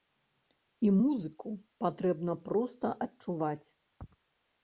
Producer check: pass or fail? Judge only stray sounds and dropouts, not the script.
pass